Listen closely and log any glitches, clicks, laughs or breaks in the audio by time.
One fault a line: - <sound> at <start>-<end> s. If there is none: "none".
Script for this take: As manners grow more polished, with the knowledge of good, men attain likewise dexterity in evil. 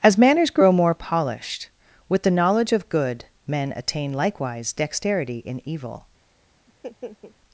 - laugh at 6.7-7.4 s